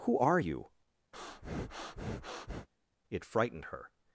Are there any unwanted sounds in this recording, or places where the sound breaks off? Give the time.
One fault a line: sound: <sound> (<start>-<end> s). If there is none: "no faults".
sound: breath (1.1-2.7 s)